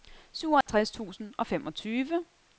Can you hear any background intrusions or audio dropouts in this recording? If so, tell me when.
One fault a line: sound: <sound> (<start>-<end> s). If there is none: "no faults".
sound: dropout (0.6-0.7 s)